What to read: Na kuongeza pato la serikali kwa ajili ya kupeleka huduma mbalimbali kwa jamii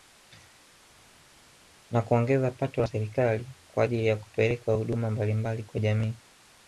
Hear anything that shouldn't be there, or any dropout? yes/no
no